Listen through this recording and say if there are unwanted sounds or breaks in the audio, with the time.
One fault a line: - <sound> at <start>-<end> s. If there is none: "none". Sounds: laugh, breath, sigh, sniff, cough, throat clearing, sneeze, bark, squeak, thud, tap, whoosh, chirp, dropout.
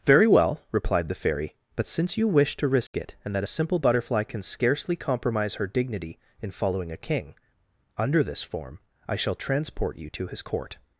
- dropout at 2.9-2.9 s